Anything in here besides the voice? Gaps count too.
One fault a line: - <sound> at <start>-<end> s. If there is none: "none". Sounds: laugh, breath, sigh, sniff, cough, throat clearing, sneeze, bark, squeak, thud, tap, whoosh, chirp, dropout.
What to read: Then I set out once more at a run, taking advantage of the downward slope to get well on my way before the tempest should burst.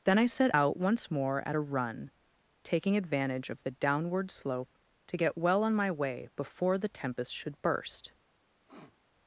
- sniff at 8.7-9.0 s